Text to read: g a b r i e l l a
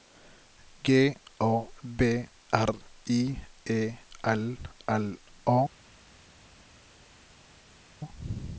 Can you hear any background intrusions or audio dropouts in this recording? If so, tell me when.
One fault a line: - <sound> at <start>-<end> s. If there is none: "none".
none